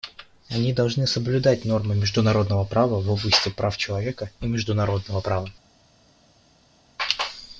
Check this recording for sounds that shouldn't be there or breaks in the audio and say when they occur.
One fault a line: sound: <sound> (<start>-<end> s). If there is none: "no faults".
no faults